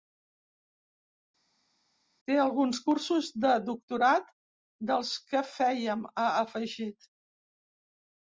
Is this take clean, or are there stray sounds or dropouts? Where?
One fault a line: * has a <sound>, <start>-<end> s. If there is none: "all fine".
all fine